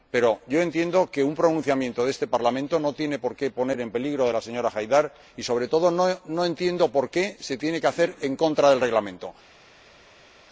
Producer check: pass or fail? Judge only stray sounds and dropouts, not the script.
pass